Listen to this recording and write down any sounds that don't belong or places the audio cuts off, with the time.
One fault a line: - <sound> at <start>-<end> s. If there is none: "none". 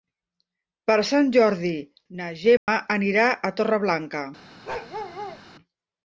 - dropout at 2.6-2.7 s
- bark at 4.6-5.4 s